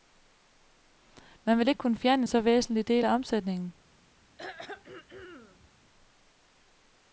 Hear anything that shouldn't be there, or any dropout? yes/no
yes